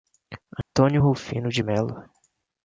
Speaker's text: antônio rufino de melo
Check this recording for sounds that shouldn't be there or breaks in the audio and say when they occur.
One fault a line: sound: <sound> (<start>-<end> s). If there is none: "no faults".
sound: dropout (0.6-0.7 s)